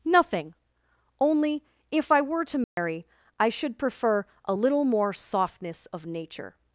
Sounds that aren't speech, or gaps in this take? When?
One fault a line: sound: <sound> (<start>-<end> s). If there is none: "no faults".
sound: dropout (2.6-2.8 s)